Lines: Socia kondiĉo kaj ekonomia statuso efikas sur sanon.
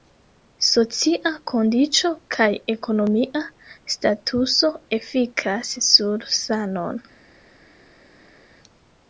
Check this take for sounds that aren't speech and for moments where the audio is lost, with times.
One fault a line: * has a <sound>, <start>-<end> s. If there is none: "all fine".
all fine